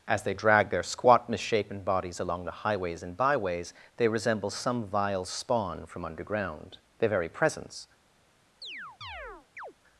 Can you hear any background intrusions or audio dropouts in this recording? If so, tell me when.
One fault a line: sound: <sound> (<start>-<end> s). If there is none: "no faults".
sound: chirp (8.6-9.7 s)